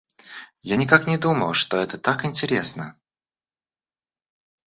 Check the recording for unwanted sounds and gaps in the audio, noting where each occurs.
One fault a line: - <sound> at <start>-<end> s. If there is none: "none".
none